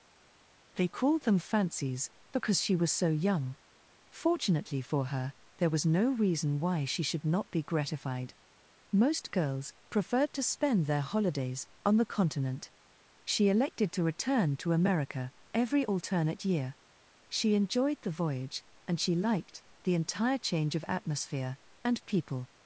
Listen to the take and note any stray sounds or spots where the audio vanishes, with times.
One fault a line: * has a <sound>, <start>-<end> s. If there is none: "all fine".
all fine